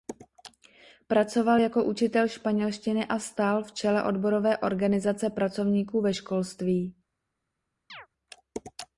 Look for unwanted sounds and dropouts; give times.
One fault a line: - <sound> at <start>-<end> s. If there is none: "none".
- chirp at 7.9-8.1 s